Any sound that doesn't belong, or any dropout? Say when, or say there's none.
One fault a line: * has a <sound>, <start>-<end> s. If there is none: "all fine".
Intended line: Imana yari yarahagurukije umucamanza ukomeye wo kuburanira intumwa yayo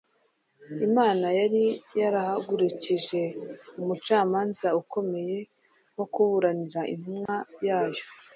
* has a dropout, 7.3-7.3 s